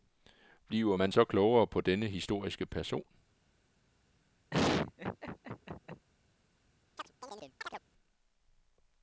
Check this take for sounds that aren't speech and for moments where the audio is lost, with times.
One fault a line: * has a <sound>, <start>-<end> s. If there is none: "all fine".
* has a laugh, 4.5-6.1 s
* has a chirp, 7.0-7.8 s